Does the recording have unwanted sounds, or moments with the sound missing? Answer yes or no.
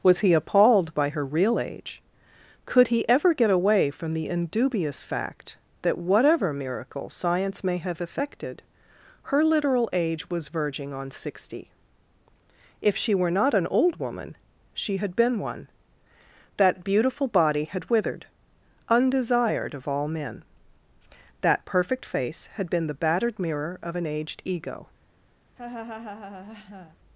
yes